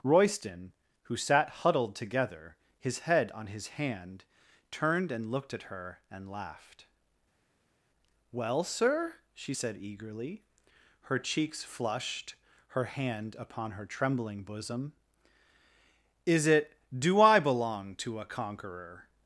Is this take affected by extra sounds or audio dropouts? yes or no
no